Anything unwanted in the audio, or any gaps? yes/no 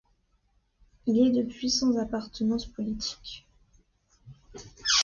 no